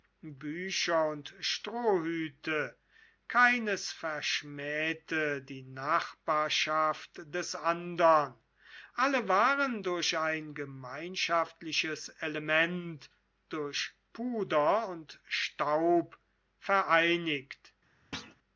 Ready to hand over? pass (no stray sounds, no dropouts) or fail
fail